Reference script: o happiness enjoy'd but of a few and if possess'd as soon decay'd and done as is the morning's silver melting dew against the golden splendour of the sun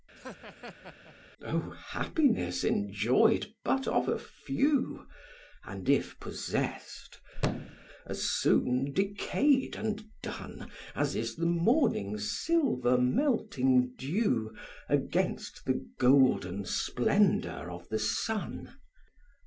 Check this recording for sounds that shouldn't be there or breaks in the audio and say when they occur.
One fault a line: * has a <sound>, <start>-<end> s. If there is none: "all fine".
* has a laugh, 0.2-1.2 s
* has a thud, 7.3-7.9 s